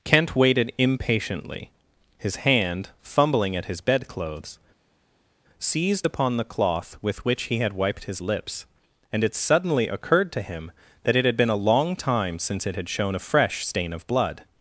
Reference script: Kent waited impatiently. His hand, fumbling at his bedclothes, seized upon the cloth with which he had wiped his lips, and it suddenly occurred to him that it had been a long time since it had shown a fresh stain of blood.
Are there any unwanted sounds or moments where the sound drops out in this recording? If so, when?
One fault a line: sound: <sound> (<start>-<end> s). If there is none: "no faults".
no faults